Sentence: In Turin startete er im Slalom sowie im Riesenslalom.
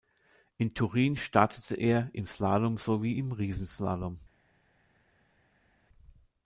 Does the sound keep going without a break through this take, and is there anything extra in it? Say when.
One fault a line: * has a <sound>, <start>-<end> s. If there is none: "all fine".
all fine